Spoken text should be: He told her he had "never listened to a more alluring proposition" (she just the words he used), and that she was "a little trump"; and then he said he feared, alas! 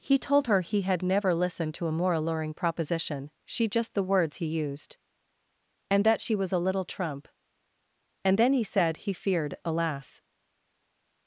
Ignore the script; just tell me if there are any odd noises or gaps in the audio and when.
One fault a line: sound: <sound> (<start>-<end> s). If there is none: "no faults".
no faults